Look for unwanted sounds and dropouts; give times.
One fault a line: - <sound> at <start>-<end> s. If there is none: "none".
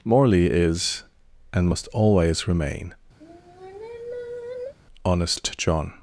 - sigh at 3.2-4.7 s